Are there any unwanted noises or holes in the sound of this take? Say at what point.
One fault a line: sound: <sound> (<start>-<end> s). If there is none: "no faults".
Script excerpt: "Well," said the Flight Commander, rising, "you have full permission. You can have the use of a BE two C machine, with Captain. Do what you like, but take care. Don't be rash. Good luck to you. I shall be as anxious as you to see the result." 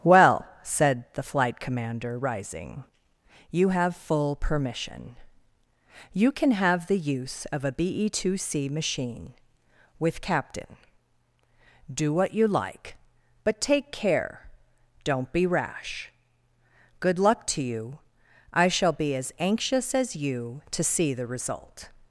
no faults